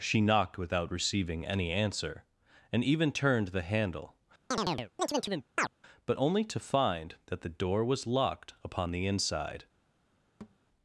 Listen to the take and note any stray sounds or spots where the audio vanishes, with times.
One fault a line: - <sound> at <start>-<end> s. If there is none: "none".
- chirp at 4.5-5.7 s
- thud at 10.4-10.6 s